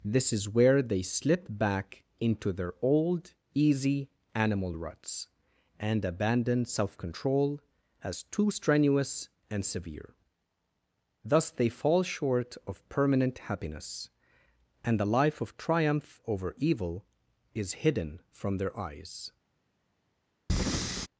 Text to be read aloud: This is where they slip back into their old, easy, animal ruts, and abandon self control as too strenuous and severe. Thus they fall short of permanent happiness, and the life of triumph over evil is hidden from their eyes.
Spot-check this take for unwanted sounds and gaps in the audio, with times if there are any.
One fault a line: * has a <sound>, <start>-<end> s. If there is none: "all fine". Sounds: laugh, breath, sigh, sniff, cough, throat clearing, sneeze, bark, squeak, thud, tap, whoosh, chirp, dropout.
* has a breath, 20.5-21.1 s